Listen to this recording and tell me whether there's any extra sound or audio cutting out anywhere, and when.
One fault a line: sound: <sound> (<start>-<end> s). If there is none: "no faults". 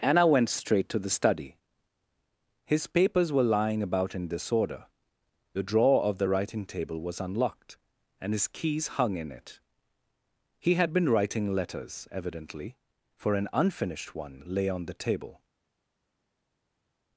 no faults